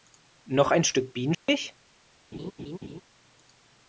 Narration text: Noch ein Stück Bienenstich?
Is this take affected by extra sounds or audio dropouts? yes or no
yes